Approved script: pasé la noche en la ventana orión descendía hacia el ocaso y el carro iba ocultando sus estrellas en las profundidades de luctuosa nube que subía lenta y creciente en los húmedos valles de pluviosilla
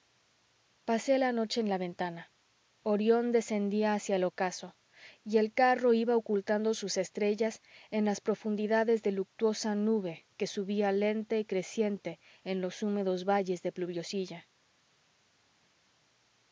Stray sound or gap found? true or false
false